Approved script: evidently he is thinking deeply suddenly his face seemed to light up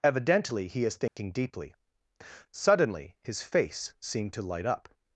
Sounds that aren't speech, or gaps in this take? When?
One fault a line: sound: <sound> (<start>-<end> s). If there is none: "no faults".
sound: dropout (1.1-1.2 s)